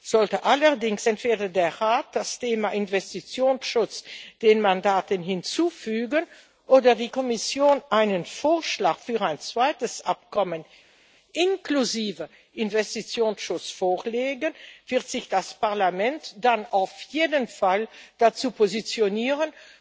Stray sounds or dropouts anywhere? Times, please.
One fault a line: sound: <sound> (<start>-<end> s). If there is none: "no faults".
no faults